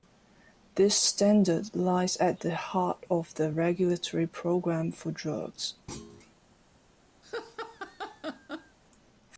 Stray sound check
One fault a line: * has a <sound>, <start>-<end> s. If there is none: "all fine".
* has a thud, 5.9-6.4 s
* has a laugh, 7.2-8.8 s